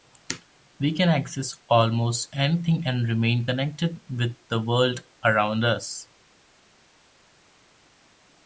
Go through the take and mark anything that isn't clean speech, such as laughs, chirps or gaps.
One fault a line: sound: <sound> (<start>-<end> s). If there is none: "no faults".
no faults